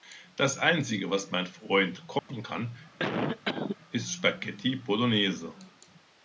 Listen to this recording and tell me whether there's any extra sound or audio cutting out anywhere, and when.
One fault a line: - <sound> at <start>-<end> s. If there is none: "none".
- dropout at 2.2-2.3 s
- cough at 3.0-3.8 s